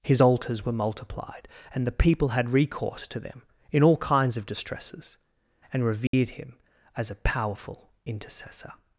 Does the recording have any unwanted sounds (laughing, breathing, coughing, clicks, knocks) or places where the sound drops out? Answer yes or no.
yes